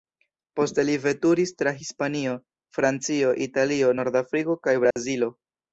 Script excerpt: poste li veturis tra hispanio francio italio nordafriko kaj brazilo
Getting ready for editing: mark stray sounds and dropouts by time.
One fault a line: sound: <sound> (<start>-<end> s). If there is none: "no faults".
sound: dropout (4.9-5.0 s)